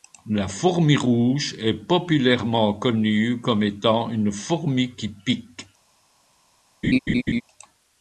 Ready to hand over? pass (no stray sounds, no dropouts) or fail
fail